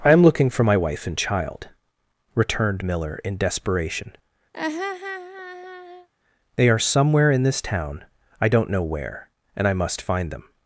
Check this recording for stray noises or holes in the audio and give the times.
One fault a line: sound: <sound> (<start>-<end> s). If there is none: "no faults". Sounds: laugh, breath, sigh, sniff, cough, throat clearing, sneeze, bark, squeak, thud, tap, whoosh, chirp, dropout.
sound: laugh (4.5-6.1 s)